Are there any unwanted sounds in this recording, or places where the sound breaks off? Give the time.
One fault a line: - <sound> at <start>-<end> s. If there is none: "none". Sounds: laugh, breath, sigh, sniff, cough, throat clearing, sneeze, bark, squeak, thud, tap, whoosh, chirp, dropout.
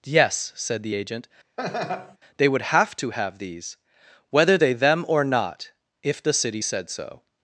- laugh at 1.6-2.2 s